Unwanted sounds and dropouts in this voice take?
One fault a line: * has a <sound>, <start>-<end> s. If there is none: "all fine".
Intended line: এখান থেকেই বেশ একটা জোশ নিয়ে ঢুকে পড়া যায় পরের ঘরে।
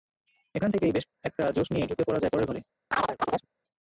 * has a chirp, 2.9-3.5 s